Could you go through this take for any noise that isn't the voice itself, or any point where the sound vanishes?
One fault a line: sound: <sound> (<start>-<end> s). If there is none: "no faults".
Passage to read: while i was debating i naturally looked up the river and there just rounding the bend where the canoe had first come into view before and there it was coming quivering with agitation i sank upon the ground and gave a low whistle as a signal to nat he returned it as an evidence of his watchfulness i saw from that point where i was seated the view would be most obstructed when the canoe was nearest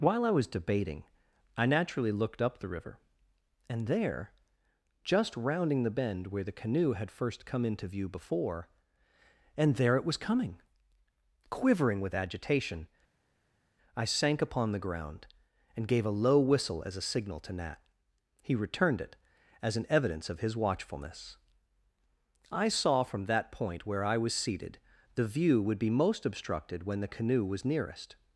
no faults